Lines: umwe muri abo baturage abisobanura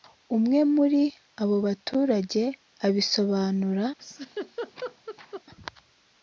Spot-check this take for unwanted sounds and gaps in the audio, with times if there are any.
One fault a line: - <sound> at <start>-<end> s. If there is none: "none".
- laugh at 4.0-5.4 s